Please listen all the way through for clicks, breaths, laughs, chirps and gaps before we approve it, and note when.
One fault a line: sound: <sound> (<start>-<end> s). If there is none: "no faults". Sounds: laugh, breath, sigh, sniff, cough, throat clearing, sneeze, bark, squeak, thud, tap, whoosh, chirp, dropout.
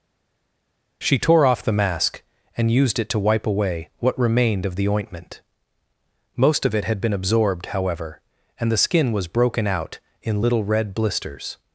no faults